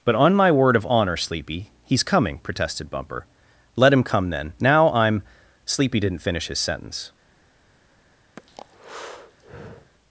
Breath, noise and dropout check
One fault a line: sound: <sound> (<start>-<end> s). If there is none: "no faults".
sound: breath (8.4-9.9 s)